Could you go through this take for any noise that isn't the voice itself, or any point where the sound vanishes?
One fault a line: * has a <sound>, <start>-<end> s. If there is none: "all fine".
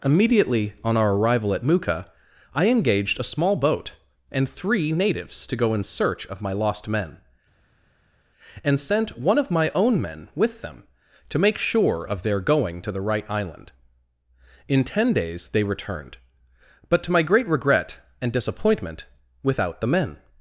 all fine